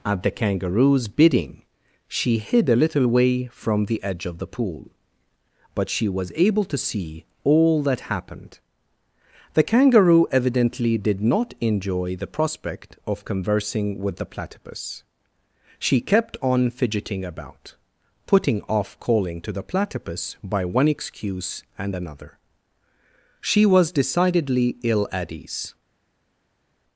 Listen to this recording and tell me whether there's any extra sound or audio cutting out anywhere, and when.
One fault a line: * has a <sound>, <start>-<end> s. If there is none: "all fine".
all fine